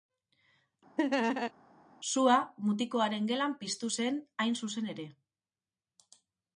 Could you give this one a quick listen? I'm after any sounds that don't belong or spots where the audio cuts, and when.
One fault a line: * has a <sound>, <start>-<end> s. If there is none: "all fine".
* has a laugh, 1.0-1.5 s